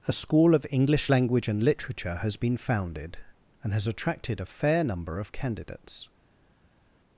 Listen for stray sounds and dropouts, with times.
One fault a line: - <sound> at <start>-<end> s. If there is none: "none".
none